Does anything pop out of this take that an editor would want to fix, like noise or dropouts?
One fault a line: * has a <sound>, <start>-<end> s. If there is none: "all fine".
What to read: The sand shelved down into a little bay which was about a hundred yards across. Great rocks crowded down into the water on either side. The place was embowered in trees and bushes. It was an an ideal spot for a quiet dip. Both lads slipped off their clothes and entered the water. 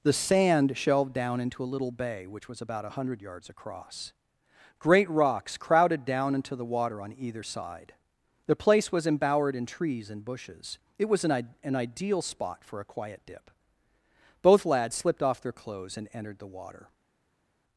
all fine